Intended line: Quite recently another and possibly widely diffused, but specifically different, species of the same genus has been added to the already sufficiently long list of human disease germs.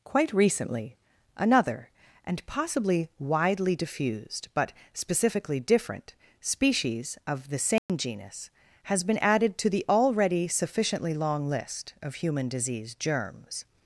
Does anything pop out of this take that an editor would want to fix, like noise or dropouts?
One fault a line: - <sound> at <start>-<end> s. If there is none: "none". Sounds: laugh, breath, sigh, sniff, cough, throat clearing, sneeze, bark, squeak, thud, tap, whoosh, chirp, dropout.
- dropout at 7.8-7.9 s